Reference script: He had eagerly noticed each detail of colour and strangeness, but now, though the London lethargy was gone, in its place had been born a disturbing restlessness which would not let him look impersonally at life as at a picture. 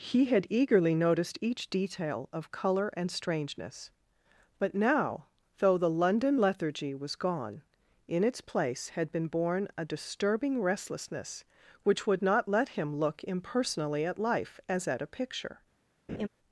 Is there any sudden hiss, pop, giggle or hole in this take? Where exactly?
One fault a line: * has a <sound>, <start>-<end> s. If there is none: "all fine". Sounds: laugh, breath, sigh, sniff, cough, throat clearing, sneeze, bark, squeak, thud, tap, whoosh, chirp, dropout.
* has a laugh, 16.1-16.3 s